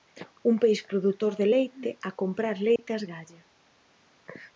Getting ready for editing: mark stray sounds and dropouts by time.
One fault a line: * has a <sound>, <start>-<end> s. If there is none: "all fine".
* has a dropout, 2.8-2.8 s